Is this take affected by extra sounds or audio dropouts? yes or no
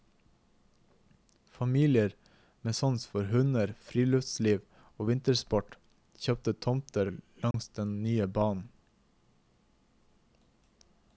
yes